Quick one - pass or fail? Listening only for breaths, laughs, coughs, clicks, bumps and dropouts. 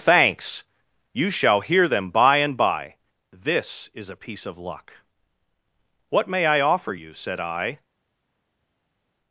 pass